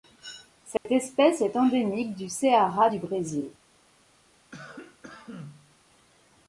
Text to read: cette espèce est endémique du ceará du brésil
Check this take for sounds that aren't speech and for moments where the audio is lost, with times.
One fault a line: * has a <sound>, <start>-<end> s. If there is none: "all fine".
* has a dropout, 0.8-0.9 s
* has a cough, 4.5-5.8 s